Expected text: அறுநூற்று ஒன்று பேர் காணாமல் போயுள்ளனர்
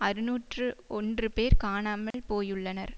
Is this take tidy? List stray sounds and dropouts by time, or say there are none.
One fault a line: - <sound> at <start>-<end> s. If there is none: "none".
- dropout at 2.1-2.1 s